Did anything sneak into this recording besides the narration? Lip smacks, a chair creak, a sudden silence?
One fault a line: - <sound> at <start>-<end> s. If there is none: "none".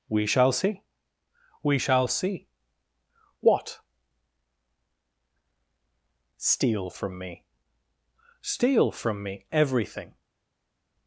none